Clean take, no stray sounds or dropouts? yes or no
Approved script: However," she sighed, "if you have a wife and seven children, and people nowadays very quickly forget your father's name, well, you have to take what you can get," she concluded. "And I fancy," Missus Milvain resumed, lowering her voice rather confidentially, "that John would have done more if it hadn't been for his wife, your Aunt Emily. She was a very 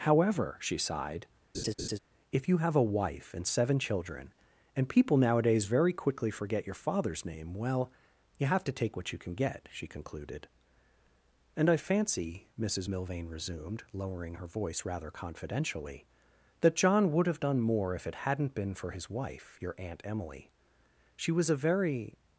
no